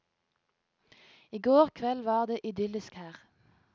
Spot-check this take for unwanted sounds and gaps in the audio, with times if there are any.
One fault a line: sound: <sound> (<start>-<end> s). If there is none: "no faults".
no faults